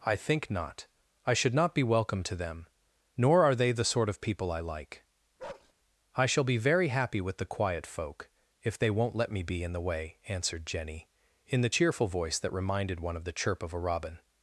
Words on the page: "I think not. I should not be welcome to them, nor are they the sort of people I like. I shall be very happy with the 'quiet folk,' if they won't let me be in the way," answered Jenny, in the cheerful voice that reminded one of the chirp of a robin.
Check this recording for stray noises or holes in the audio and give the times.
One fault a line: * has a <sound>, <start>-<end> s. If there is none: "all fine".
* has a bark, 5.4-5.7 s